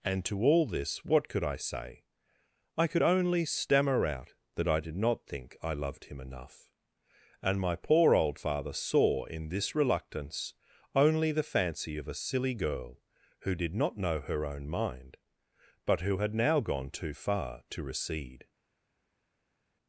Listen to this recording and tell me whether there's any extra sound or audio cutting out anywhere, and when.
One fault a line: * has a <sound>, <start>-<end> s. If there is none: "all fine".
all fine